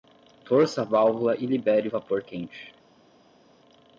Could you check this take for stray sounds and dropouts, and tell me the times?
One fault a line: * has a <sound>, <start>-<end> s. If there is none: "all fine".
all fine